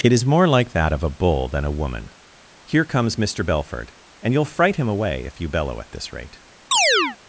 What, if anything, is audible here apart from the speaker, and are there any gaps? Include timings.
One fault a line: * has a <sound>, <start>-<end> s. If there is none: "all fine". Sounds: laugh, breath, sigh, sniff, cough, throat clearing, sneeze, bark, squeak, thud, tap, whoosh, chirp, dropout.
* has a chirp, 6.7-7.2 s